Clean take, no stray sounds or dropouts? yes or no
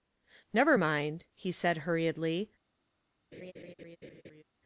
no